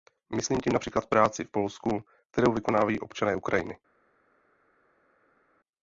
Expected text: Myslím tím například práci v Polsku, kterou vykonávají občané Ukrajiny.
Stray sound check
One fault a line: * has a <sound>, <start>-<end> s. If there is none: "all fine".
all fine